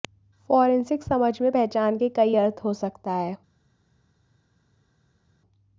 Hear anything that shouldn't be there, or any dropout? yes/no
no